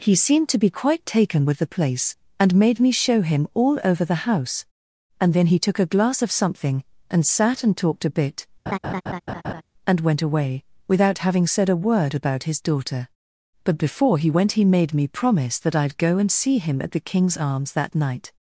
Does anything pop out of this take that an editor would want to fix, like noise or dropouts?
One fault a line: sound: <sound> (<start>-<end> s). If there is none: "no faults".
sound: laugh (8.7-9.6 s)